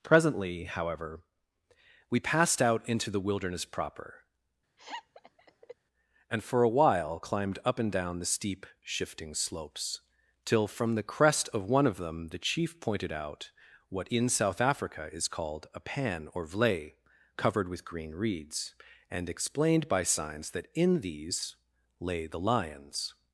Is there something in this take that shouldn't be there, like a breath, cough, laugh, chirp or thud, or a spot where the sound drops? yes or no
yes